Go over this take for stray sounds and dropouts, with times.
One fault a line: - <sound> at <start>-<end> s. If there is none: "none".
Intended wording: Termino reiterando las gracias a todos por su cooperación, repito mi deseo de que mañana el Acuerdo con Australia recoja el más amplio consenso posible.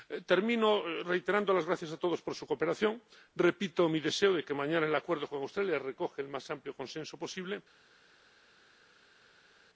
none